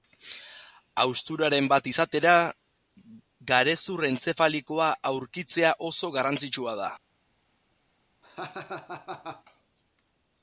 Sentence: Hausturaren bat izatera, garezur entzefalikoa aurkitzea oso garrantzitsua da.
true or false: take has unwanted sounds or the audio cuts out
true